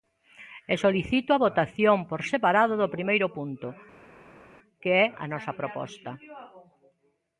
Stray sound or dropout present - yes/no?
no